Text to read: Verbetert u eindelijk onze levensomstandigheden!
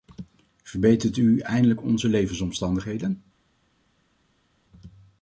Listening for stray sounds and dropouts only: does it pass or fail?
pass